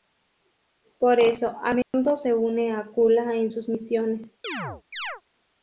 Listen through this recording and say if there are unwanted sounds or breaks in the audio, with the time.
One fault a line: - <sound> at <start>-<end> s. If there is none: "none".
- dropout at 1.8-1.9 s
- chirp at 4.4-5.2 s